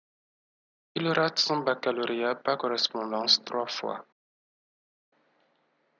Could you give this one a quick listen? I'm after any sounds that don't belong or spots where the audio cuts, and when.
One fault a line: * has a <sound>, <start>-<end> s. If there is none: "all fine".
all fine